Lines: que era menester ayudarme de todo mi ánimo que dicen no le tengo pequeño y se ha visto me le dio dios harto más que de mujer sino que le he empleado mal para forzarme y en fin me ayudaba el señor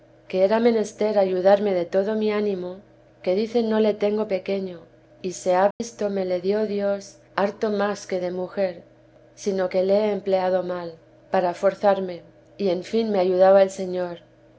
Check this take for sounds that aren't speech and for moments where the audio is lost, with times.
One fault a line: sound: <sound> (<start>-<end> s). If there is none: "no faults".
sound: dropout (5.7-5.8 s)